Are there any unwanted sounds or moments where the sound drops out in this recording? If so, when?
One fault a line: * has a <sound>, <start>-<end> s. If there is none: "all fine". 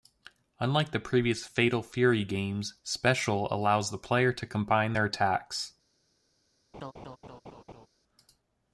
* has a laugh, 6.7-7.9 s